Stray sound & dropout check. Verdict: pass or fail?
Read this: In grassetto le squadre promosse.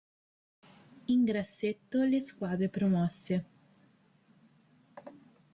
pass